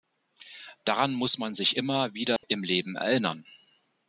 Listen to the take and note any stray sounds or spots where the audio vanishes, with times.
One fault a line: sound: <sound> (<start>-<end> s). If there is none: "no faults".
sound: dropout (2.4-2.4 s)